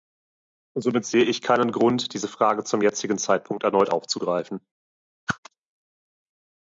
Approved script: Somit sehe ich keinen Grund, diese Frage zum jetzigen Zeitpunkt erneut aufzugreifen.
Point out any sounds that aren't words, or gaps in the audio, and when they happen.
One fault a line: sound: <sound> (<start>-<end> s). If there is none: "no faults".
sound: whoosh (5.3-5.4 s)